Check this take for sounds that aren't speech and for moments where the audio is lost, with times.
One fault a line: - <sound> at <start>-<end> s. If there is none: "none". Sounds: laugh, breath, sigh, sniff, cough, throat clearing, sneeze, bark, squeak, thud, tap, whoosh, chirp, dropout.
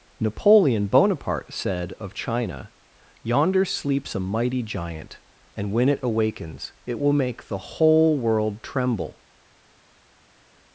none